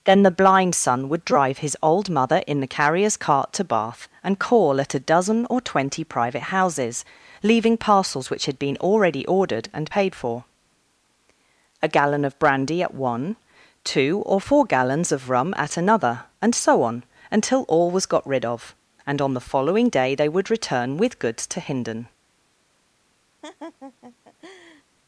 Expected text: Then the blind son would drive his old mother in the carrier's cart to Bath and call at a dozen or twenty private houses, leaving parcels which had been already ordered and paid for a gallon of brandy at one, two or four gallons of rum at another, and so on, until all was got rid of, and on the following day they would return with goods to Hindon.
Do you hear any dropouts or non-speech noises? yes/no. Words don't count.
yes